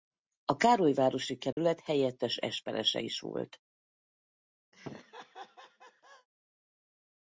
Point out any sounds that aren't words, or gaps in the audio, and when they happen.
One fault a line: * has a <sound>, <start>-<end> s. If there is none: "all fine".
* has a dropout, 1.5-1.6 s
* has a laugh, 4.7-6.3 s